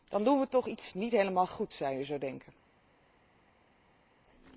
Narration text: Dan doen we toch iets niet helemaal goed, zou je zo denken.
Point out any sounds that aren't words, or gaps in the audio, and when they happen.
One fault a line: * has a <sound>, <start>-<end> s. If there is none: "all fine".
all fine